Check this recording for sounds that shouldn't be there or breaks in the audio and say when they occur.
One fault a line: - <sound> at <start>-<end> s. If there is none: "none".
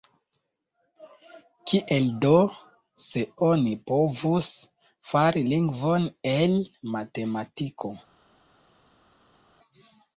none